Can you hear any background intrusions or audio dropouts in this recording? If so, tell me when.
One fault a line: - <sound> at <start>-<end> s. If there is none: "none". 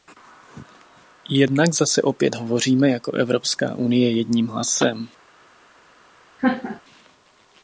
- laugh at 6.4-6.8 s